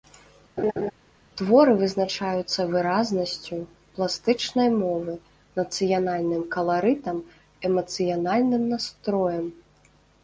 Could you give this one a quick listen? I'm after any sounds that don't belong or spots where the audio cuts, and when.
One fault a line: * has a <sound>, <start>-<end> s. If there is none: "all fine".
* has a laugh, 0.6-0.9 s